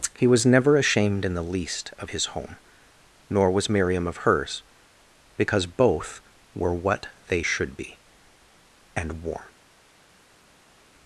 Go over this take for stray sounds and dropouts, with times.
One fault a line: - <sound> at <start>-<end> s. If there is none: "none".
none